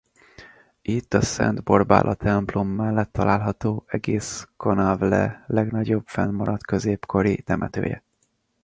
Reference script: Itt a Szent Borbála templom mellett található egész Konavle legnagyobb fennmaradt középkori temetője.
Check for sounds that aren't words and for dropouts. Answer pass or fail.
pass